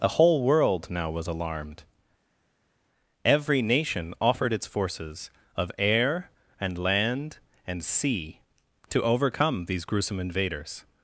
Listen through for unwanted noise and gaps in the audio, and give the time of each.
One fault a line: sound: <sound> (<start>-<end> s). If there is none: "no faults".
no faults